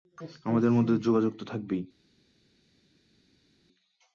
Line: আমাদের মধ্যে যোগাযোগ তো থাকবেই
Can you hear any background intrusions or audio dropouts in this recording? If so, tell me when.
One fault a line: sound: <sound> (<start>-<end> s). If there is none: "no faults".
no faults